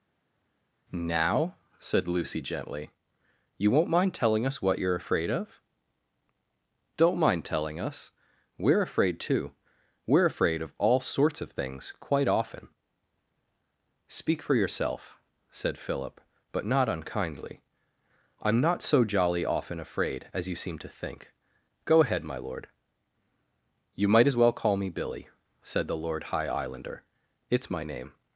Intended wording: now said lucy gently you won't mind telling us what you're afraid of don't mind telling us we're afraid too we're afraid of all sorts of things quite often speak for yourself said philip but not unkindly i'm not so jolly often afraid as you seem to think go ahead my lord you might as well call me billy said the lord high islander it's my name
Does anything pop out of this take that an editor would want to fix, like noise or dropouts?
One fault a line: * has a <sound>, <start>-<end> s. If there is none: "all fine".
all fine